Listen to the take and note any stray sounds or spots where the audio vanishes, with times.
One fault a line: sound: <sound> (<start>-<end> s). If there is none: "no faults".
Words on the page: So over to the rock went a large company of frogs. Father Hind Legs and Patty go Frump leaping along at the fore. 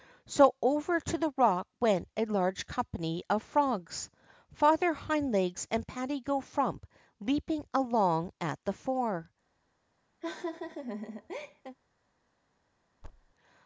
sound: laugh (10.2-11.8 s)
sound: thud (13.0-13.3 s)